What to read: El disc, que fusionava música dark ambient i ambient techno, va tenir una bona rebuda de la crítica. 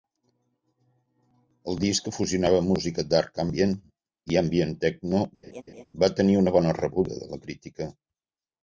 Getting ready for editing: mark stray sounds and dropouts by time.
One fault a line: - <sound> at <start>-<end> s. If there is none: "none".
- laugh at 5.4-5.8 s